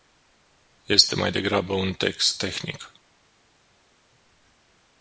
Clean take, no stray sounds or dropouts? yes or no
yes